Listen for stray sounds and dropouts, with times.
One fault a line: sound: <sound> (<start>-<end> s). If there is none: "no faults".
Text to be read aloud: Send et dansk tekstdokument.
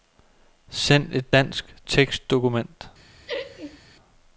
sound: laugh (3.3-3.8 s)